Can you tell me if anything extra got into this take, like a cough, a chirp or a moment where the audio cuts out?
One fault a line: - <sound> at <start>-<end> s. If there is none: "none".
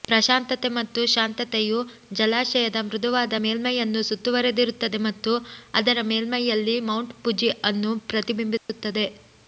- dropout at 8.6-8.7 s